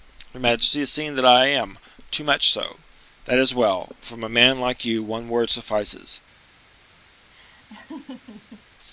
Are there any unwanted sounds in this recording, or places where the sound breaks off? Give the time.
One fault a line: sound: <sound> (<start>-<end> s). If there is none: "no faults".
sound: laugh (7.3-8.6 s)